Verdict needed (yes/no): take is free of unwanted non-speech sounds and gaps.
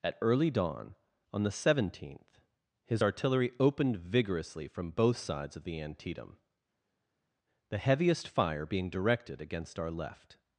yes